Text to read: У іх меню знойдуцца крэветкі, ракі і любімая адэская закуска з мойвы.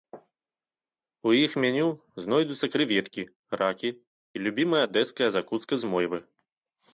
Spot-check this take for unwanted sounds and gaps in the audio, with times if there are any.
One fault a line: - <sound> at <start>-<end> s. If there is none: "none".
none